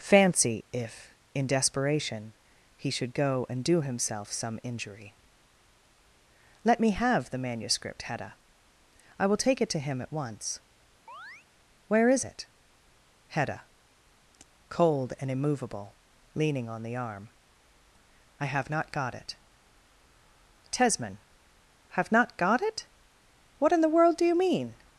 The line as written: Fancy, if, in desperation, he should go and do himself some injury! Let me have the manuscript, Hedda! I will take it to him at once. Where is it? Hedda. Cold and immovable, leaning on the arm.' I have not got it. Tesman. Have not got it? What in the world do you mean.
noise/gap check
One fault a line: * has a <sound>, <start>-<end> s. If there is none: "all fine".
* has a chirp, 11.1-11.5 s